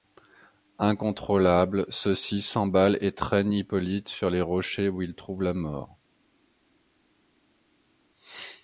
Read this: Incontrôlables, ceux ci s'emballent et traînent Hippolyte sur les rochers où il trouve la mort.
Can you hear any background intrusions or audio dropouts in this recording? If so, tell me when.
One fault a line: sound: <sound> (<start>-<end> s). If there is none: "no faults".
no faults